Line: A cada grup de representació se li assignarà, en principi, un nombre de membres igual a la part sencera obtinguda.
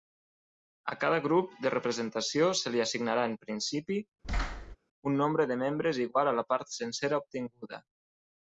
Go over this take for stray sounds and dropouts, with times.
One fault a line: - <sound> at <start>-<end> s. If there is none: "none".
- thud at 4.2-4.8 s